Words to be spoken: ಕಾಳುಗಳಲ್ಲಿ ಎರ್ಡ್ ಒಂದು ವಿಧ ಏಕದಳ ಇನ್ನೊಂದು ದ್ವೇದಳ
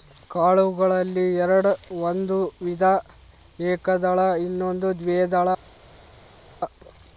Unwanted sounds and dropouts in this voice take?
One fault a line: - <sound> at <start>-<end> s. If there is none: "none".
none